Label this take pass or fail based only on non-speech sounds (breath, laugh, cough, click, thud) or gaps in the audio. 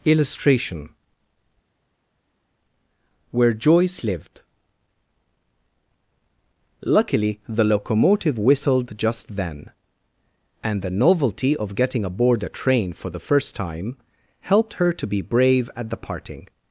pass